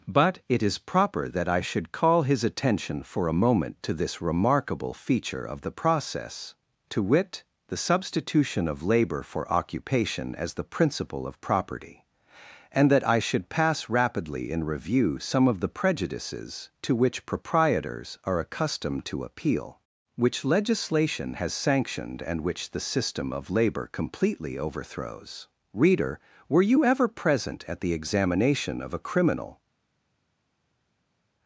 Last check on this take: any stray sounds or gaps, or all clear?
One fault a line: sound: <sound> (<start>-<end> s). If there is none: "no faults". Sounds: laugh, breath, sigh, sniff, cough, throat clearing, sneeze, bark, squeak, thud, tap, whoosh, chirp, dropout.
no faults